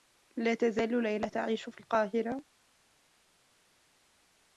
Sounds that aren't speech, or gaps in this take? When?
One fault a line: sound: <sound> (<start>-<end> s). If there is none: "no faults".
no faults